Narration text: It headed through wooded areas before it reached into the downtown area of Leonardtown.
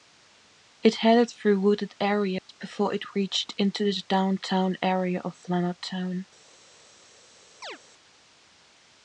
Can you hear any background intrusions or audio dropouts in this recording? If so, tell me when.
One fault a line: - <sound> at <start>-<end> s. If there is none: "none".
- dropout at 2.4-2.5 s
- chirp at 7.6-7.8 s